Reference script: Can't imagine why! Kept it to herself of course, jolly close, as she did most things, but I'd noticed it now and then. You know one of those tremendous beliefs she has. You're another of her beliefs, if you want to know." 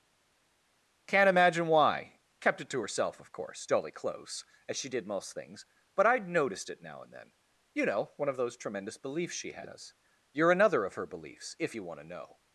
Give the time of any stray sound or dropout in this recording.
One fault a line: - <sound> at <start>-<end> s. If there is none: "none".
none